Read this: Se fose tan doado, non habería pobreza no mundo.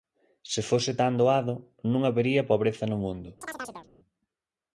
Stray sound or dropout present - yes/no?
yes